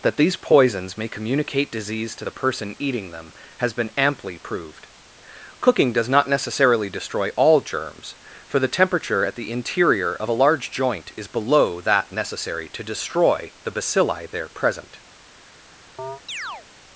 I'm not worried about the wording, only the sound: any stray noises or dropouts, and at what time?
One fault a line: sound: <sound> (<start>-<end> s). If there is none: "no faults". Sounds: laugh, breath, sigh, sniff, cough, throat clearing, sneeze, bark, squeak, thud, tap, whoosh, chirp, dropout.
sound: chirp (16.0-16.7 s)